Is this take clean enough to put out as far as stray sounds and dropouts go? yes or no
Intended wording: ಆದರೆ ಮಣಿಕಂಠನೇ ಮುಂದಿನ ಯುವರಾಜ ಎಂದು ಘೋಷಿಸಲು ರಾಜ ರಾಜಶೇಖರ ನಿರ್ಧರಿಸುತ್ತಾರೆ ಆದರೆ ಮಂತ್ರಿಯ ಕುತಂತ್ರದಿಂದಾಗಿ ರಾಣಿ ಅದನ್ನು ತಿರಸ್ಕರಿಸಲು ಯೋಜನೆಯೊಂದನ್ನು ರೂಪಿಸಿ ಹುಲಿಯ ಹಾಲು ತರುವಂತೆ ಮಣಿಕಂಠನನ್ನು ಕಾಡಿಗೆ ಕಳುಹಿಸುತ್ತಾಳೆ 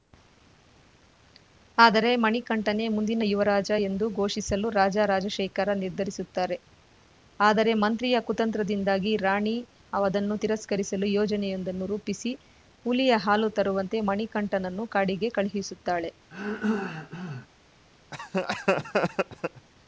no